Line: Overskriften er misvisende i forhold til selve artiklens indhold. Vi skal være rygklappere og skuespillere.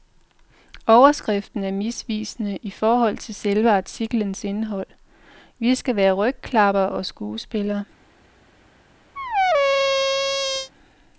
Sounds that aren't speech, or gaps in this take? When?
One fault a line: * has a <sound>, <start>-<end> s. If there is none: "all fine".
* has a squeak, 9.2-10.7 s